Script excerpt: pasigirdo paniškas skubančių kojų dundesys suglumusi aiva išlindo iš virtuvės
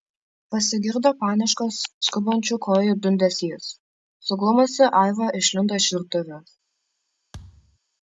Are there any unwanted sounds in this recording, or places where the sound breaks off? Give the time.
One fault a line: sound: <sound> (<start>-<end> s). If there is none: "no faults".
sound: thud (7.3-7.8 s)